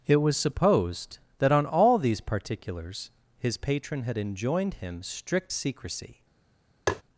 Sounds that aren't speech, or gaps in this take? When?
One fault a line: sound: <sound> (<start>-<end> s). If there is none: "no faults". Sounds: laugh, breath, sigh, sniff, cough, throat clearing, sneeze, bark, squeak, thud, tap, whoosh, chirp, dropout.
sound: tap (6.9-7.0 s)